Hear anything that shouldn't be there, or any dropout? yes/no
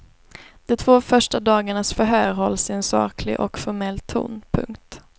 no